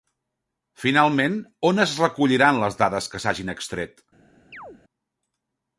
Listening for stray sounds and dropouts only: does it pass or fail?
fail